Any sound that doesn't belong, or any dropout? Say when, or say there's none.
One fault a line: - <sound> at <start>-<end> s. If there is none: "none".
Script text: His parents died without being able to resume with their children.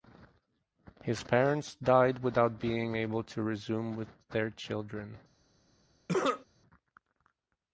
- cough at 6.1-6.5 s